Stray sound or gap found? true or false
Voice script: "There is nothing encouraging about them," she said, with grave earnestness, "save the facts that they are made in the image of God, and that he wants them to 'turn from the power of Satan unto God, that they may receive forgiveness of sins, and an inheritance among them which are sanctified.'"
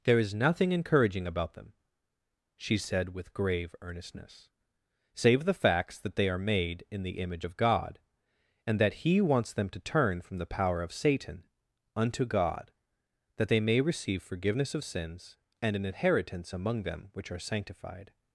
false